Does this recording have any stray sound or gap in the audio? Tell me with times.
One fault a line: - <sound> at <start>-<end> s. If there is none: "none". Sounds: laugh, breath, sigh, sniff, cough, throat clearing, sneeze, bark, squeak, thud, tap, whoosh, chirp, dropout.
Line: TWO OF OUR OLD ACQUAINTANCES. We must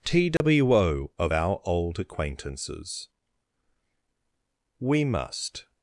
- dropout at 0.4-0.4 s